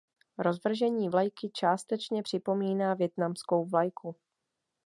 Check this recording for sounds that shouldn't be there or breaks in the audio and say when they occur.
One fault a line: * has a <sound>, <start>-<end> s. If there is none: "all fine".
all fine